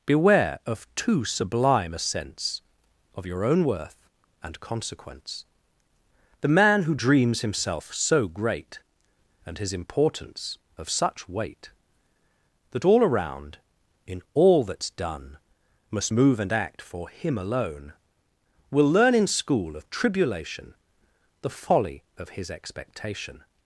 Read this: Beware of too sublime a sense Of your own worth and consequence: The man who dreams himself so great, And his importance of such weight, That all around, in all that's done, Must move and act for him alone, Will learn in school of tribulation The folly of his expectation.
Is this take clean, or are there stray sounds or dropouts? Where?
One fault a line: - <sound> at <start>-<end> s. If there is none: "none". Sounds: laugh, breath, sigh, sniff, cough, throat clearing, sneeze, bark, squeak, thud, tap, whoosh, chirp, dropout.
none